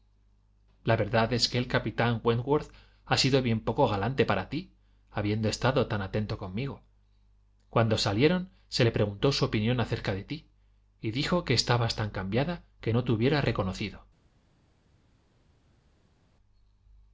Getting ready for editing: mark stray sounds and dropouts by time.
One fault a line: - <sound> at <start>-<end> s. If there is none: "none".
none